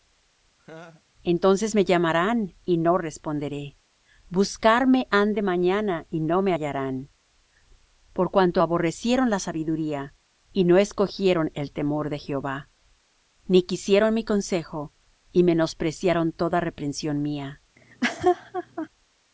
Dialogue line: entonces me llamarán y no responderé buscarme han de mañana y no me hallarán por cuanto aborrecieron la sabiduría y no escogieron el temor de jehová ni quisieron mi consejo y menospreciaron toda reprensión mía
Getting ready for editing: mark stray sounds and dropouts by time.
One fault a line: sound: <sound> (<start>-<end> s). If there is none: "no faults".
sound: laugh (0.6-1.0 s)
sound: laugh (17.8-18.9 s)